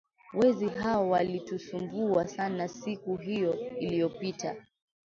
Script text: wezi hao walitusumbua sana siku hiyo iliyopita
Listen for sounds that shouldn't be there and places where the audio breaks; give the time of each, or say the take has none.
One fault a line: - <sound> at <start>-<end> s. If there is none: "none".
none